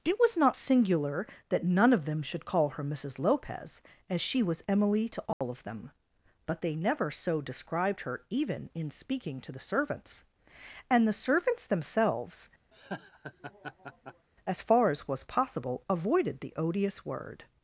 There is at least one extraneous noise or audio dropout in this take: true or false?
true